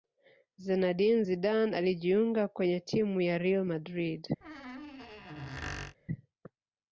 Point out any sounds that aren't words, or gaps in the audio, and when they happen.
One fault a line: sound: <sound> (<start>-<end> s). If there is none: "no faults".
sound: squeak (4.4-6.0 s)